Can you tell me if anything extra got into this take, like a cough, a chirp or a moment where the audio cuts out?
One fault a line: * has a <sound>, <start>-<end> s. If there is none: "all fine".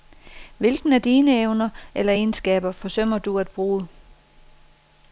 all fine